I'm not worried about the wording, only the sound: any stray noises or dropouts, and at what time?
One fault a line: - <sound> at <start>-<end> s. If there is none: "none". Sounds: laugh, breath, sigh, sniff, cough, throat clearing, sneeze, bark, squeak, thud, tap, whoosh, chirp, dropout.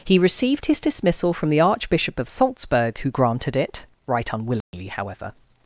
- dropout at 4.6-4.7 s